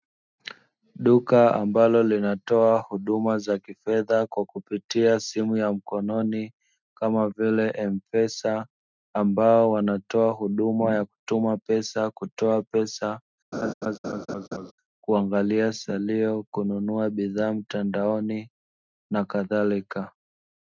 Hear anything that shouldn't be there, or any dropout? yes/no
yes